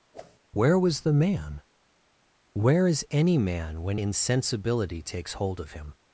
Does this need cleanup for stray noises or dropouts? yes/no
yes